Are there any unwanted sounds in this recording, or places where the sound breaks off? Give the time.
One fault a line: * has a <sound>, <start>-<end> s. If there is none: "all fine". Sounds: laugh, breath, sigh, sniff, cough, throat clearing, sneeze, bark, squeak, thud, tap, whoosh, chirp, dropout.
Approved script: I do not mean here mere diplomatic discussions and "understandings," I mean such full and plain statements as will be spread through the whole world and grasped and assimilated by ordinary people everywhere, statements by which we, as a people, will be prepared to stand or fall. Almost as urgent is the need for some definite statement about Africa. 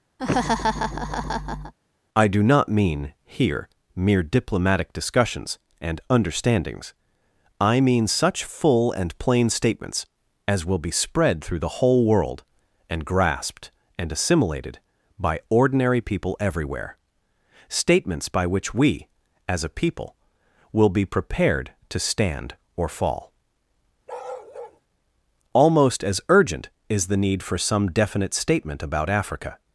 * has a laugh, 0.2-1.7 s
* has a bark, 24.1-24.8 s